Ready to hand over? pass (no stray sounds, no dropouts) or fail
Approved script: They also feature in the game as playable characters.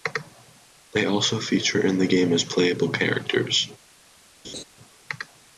fail